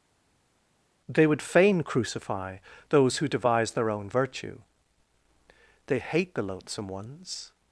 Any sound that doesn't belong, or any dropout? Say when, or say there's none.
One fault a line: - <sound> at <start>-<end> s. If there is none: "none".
none